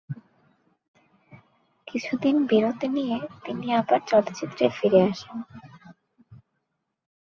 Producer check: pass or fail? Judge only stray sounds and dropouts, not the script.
pass